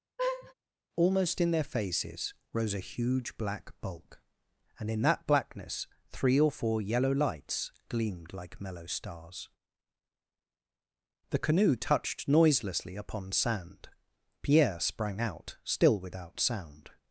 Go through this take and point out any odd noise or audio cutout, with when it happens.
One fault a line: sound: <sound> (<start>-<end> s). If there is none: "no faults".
sound: laugh (0.2-0.5 s)